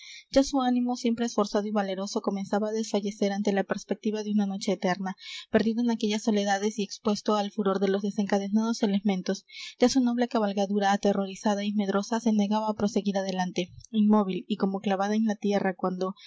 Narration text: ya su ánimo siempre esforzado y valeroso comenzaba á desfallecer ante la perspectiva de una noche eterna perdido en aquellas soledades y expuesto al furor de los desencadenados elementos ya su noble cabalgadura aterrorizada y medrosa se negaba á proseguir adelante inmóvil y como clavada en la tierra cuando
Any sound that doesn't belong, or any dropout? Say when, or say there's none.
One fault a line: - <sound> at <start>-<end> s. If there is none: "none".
none